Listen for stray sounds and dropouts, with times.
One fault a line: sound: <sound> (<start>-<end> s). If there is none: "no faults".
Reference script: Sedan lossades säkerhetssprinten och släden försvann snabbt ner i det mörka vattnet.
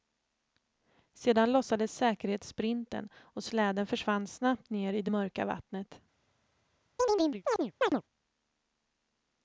sound: chirp (7.0-8.0 s)